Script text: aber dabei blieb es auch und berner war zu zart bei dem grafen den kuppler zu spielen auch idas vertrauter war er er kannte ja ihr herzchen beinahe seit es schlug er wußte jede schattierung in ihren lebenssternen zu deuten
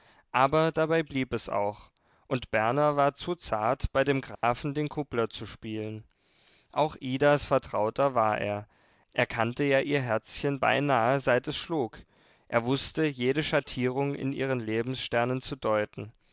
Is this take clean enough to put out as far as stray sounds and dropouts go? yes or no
no